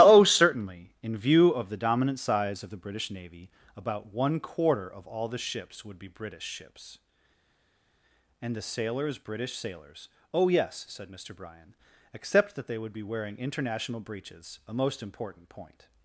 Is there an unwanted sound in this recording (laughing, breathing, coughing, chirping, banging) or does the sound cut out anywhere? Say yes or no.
no